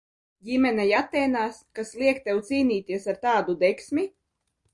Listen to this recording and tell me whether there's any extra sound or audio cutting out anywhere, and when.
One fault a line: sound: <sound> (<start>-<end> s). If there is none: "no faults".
no faults